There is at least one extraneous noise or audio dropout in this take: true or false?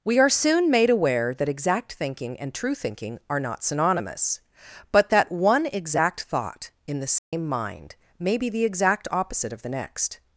true